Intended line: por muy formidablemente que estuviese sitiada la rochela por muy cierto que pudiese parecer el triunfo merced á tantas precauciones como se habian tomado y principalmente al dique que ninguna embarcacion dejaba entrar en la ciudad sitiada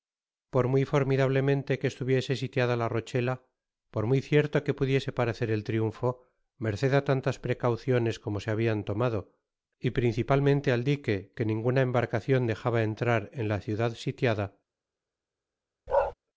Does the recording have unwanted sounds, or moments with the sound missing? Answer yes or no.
yes